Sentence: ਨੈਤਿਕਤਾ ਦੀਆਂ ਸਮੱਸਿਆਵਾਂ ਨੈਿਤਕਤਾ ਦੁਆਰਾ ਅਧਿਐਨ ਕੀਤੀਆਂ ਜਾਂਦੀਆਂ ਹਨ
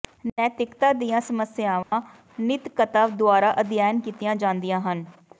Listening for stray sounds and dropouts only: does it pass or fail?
fail